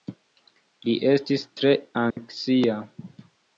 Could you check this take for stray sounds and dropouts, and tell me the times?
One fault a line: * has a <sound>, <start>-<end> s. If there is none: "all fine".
* has a dropout, 2.1-2.2 s